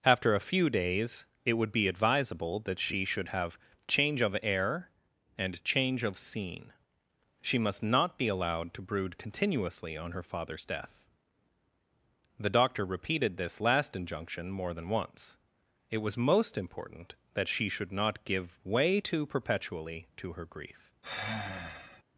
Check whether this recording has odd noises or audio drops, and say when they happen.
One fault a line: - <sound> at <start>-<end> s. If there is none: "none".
- sigh at 21.0-22.0 s